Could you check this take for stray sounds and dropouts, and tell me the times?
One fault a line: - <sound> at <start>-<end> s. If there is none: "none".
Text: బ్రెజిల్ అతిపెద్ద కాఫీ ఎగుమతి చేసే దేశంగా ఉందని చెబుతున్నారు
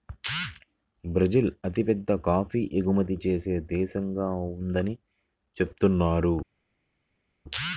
none